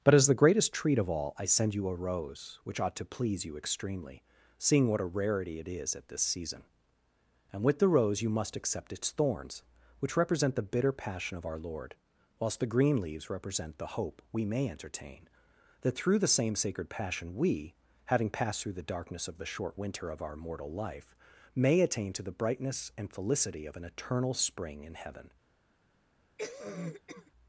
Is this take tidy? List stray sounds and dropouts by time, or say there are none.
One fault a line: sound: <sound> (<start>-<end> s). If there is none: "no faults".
sound: cough (26.4-27.3 s)